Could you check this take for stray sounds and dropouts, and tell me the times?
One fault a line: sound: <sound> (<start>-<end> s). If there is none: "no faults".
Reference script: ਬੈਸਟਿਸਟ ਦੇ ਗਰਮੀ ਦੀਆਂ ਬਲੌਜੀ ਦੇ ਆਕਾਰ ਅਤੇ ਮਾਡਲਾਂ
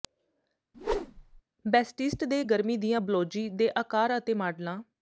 sound: whoosh (0.7-1.4 s)